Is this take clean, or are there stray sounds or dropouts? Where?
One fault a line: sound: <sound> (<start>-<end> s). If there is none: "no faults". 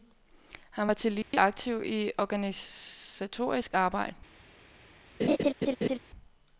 sound: dropout (1.2-1.3 s)
sound: laugh (5.2-6.0 s)